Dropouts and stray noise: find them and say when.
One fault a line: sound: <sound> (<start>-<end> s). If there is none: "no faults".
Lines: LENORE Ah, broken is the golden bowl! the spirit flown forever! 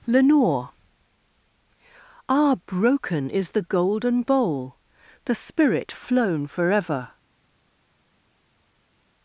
no faults